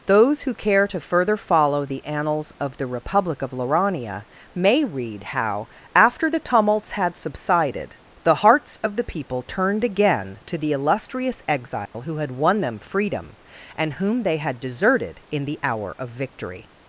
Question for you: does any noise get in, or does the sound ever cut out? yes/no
yes